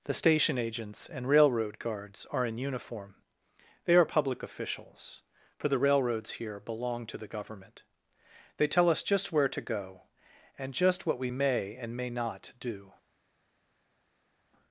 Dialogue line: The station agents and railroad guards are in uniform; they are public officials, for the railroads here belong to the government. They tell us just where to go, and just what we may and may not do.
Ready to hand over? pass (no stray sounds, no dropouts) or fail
pass